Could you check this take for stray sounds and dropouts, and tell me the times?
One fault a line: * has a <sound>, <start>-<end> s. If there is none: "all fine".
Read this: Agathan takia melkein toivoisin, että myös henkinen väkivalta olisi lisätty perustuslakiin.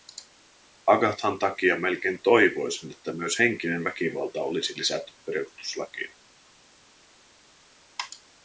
all fine